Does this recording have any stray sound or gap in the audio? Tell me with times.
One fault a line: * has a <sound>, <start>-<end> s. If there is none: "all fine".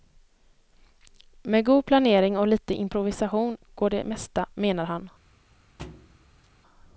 * has a thud, 5.8-6.5 s